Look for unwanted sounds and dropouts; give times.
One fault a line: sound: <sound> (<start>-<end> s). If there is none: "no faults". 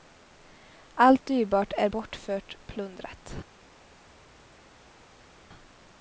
no faults